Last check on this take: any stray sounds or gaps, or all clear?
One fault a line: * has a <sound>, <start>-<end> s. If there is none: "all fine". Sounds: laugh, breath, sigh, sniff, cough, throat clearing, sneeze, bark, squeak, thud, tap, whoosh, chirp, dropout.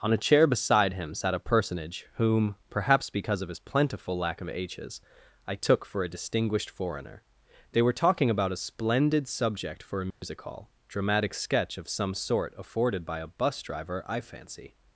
* has a dropout, 10.1-10.2 s